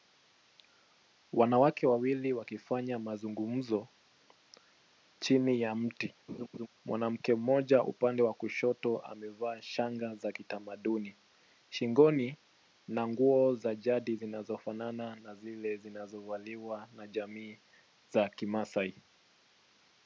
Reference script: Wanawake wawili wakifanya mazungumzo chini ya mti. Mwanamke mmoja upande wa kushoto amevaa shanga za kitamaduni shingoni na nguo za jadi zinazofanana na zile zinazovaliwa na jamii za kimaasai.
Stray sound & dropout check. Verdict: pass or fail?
fail